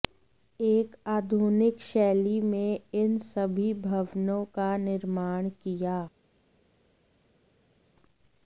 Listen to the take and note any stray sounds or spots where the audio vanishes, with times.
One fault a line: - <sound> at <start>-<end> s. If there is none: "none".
none